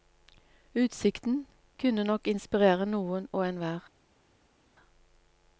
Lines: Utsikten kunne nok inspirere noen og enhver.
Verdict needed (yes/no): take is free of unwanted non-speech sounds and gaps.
yes